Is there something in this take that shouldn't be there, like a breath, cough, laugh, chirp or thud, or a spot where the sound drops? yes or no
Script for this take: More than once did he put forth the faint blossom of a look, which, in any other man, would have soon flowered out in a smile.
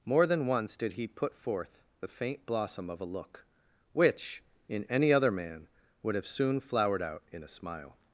no